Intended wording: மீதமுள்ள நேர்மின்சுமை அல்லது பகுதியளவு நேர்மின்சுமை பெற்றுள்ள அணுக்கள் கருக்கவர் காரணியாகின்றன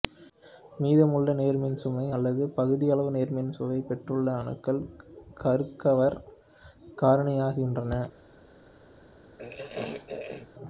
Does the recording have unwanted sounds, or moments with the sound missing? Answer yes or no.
yes